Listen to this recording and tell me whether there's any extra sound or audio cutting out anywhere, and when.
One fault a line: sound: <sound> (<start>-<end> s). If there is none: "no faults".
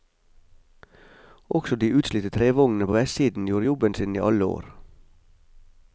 no faults